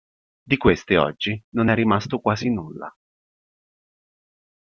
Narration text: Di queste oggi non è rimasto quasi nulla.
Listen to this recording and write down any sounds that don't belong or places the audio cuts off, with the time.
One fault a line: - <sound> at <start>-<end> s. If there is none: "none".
none